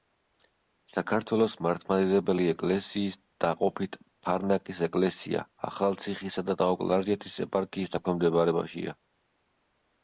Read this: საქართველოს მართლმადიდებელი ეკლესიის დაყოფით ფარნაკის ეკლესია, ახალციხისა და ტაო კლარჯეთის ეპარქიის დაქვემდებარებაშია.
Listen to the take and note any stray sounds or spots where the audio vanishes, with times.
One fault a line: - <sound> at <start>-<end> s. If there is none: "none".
none